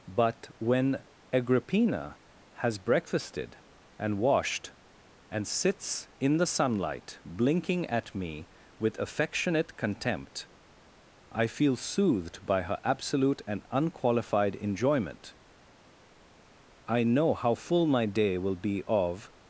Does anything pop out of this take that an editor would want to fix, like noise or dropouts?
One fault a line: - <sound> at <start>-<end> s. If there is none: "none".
none